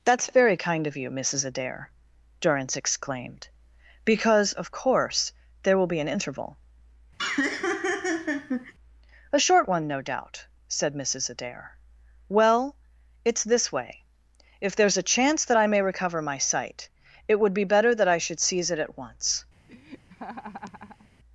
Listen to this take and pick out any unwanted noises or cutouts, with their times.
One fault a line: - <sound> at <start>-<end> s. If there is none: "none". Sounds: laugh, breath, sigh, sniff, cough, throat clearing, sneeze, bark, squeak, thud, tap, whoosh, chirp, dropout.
- laugh at 7.2-8.7 s
- laugh at 19.7-21.1 s